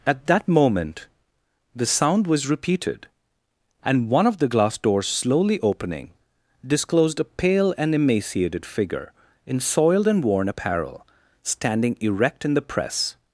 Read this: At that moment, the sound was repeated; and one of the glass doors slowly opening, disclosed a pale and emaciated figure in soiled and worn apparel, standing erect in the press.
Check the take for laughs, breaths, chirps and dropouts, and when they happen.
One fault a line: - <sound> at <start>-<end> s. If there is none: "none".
none